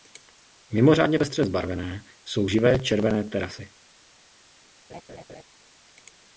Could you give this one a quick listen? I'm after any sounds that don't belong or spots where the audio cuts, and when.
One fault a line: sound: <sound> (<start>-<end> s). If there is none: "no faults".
sound: laugh (4.9-5.4 s)